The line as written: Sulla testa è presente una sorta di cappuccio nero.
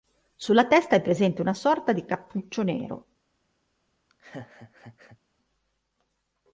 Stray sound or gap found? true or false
true